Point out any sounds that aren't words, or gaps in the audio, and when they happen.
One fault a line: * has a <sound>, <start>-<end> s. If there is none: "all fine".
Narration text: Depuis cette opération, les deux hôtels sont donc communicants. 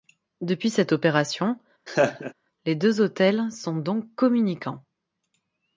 * has a laugh, 1.9-2.3 s